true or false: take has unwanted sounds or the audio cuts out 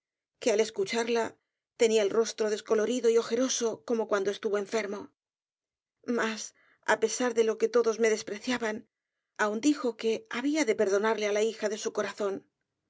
false